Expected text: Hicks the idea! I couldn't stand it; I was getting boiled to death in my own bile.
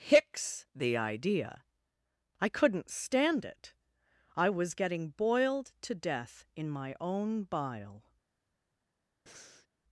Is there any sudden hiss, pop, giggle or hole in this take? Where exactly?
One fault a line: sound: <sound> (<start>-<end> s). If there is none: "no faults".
sound: breath (9.3-9.7 s)